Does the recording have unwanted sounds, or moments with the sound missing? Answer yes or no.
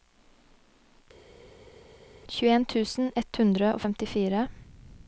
no